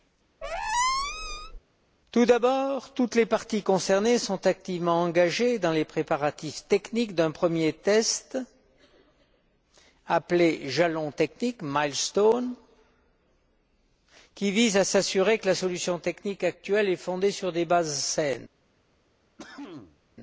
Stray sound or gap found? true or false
true